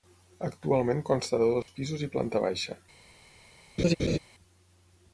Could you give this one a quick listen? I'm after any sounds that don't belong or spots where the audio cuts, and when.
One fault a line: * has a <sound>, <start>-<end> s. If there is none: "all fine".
* has a dropout, 1.6-1.7 s
* has a laugh, 3.8-4.2 s